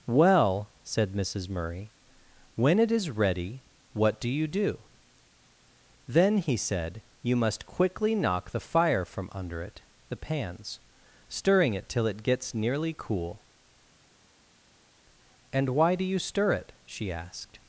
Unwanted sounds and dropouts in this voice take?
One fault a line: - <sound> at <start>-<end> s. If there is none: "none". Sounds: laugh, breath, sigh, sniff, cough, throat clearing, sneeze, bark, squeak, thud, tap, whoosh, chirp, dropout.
none